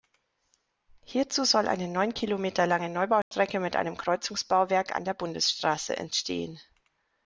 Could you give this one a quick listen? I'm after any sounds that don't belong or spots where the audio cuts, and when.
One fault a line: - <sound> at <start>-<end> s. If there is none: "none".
- dropout at 3.2-3.3 s